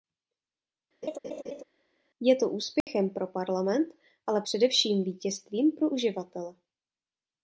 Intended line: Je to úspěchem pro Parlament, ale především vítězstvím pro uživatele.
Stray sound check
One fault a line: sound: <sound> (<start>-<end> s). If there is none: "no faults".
sound: laugh (1.0-1.6 s)
sound: dropout (2.8-2.9 s)